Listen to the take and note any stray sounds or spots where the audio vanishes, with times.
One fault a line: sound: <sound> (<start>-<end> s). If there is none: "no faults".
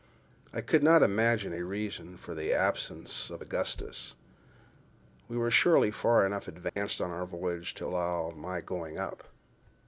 sound: dropout (6.7-6.8 s)